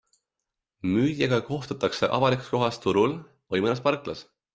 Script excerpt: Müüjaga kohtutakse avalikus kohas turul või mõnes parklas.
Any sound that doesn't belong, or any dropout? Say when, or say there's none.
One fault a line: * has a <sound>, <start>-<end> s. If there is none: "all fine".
all fine